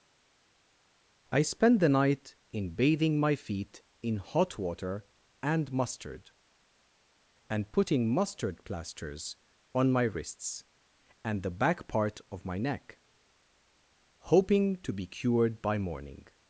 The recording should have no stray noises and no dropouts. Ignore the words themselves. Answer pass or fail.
pass